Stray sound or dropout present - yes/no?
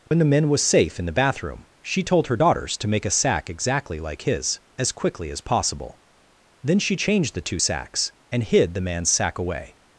yes